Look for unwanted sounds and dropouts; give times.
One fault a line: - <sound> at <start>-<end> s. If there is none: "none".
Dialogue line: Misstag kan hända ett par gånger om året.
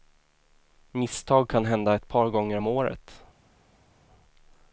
none